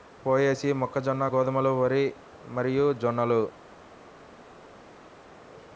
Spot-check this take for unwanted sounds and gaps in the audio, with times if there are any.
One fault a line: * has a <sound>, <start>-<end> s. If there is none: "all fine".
all fine